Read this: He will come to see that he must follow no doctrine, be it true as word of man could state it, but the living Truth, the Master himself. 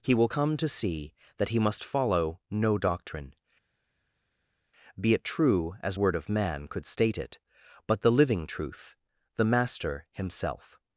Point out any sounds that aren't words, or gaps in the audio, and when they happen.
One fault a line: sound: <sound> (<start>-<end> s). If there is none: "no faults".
no faults